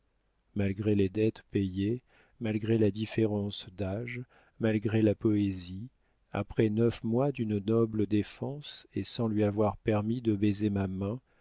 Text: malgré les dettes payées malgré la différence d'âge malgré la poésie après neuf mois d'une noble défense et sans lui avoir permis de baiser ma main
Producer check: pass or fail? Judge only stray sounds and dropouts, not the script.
pass